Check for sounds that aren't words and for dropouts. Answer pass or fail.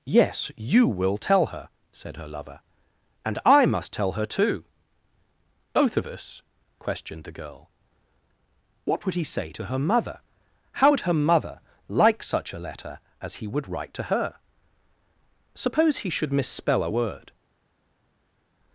pass